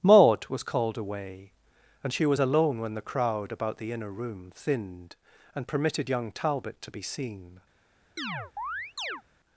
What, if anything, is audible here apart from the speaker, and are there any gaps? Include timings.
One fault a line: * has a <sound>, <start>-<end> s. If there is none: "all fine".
* has a chirp, 8.2-9.2 s